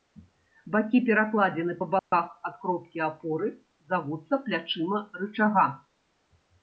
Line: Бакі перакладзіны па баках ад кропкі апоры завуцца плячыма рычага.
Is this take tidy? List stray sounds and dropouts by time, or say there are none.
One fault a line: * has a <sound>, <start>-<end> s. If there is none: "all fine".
* has a dropout, 2.0-2.1 s